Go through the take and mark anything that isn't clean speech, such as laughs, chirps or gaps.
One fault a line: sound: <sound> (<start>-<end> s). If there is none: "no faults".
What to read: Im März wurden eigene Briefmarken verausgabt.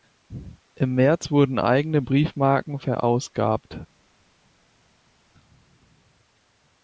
no faults